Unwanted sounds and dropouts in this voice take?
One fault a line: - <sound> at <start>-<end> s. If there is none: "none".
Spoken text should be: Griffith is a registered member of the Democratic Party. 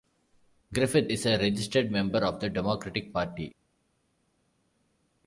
none